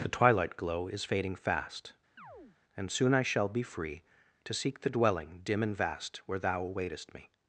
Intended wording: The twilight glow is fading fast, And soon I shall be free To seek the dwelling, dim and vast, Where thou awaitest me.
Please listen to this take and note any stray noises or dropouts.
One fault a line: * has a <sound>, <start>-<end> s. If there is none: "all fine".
* has a chirp, 2.2-2.6 s